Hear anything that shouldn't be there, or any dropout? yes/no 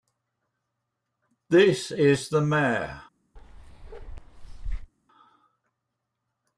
yes